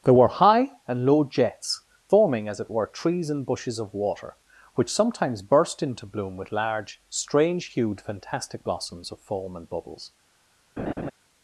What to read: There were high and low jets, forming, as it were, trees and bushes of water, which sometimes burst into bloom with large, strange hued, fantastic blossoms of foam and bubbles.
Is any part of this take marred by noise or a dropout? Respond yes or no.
yes